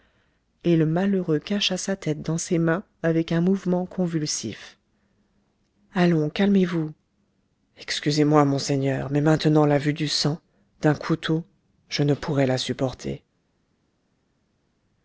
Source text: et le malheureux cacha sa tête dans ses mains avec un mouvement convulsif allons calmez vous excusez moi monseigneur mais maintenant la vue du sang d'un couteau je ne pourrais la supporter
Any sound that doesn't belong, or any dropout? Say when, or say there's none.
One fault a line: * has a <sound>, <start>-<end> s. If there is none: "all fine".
all fine